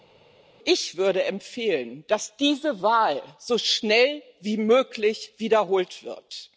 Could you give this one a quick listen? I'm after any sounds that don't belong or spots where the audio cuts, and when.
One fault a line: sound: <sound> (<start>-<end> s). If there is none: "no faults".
no faults